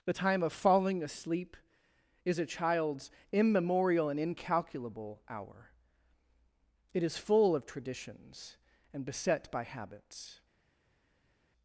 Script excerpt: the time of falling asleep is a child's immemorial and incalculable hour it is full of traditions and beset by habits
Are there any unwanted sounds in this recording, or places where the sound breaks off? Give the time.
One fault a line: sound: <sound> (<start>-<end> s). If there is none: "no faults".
no faults